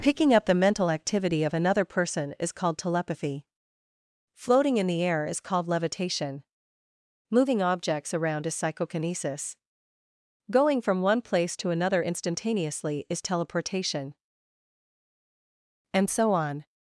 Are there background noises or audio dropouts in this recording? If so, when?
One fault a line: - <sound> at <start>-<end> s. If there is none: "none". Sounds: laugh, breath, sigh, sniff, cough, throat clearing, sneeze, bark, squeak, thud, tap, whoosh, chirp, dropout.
none